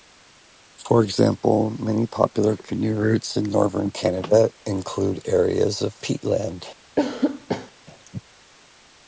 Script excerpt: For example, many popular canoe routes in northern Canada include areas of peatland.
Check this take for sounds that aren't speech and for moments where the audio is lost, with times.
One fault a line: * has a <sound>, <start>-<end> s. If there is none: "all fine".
* has a cough, 7.0-7.7 s